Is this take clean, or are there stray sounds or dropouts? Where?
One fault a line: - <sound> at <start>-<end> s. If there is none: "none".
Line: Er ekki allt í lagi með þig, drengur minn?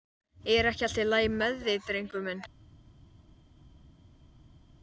none